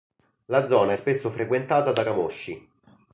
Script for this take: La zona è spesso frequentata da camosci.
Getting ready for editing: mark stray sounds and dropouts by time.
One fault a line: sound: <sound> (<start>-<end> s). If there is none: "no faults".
no faults